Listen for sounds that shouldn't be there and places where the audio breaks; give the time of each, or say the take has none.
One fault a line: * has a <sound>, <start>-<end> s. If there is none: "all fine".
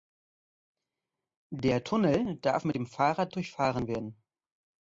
all fine